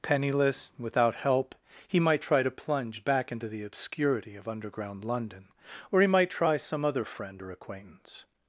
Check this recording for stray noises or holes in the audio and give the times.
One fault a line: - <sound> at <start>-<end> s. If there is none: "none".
none